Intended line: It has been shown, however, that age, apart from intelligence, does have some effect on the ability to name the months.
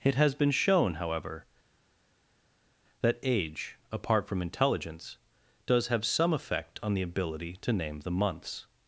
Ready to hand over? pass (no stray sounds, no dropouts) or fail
pass